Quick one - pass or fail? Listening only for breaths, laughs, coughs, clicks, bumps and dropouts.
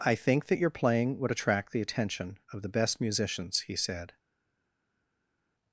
pass